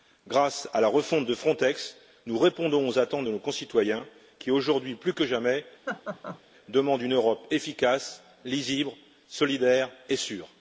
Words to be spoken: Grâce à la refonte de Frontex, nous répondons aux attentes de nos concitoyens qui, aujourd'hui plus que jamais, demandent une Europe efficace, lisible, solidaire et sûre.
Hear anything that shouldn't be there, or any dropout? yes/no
yes